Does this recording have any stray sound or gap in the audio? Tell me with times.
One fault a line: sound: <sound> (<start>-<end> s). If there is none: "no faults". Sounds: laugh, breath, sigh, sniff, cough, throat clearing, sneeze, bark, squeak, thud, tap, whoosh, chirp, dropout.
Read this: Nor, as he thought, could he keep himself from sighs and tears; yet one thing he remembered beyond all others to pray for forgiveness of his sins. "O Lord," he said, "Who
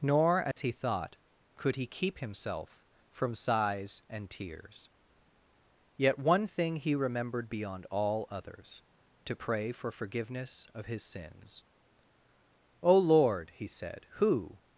sound: dropout (0.5-0.6 s)